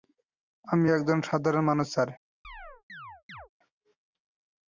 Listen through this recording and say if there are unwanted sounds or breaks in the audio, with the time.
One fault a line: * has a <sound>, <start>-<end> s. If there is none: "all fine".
* has a chirp, 2.4-3.5 s